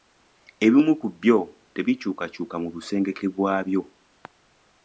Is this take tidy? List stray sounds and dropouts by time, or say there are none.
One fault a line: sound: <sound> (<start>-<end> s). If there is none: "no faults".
no faults